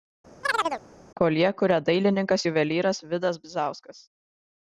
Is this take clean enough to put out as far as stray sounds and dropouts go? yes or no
no